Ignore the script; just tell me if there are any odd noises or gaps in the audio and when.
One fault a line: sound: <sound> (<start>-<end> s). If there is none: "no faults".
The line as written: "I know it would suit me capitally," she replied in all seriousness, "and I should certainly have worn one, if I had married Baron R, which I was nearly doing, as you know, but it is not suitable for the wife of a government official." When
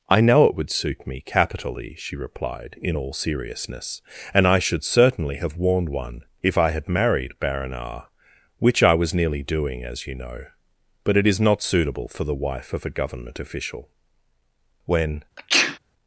sound: sneeze (15.4-15.8 s)